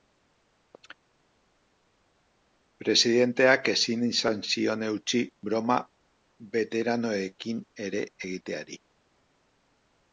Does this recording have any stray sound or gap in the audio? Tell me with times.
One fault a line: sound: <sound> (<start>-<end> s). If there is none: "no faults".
no faults